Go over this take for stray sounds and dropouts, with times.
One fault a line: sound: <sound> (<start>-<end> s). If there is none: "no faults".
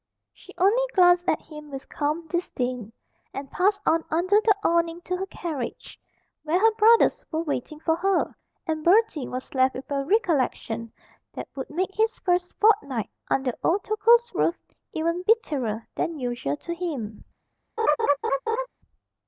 sound: laugh (17.8-18.7 s)